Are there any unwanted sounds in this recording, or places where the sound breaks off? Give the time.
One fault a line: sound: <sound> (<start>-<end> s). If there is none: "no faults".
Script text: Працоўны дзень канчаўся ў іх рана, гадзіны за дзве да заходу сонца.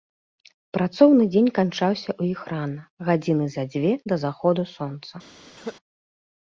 sound: cough (5.6-5.8 s)